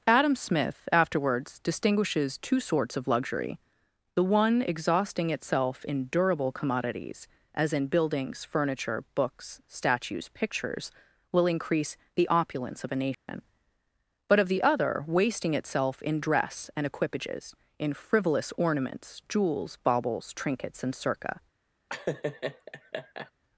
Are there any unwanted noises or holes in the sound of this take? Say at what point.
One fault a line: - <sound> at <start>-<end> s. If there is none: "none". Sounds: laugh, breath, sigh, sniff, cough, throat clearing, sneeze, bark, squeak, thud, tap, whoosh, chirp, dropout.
- dropout at 13.1-13.3 s
- laugh at 21.9-23.3 s